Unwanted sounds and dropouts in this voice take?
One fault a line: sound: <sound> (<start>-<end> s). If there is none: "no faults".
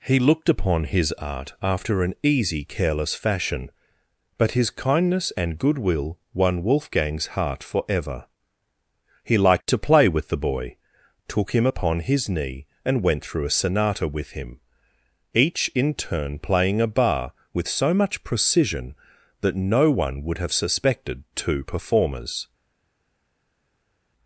no faults